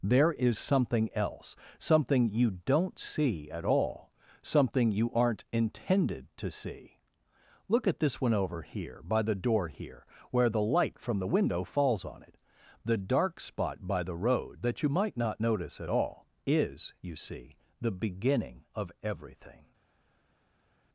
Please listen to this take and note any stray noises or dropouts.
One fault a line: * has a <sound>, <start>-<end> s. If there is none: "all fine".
all fine